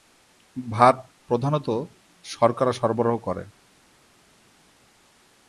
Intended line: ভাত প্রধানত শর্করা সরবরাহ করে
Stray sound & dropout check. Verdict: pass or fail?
pass